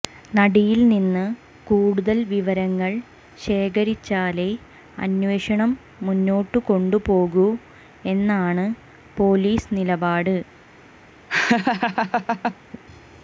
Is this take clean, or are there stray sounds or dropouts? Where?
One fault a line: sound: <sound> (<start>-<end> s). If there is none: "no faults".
sound: laugh (11.3-12.5 s)